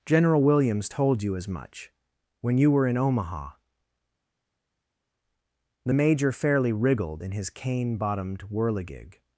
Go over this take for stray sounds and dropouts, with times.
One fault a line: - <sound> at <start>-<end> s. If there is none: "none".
none